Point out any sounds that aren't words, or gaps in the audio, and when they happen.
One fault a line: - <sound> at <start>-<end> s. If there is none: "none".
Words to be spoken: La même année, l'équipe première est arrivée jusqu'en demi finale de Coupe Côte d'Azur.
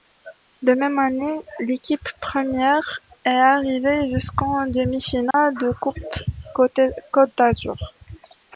- dropout at 5.3-5.3 s